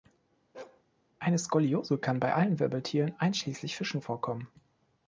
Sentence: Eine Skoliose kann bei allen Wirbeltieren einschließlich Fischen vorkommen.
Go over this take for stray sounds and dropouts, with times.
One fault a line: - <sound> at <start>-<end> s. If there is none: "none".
- bark at 0.5-0.8 s